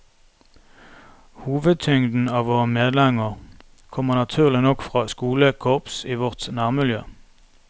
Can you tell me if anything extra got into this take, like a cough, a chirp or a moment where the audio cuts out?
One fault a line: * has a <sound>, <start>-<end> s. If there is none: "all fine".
all fine